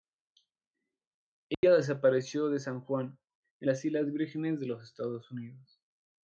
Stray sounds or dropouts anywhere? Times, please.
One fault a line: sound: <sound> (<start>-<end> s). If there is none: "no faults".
sound: dropout (1.5-1.6 s)